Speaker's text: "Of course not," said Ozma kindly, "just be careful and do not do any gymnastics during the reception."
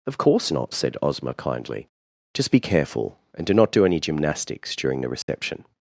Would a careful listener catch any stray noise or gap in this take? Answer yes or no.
yes